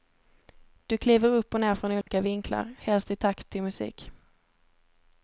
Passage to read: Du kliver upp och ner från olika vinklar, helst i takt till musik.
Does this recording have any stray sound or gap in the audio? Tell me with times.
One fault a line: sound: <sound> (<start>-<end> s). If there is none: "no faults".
sound: dropout (2.0-2.1 s)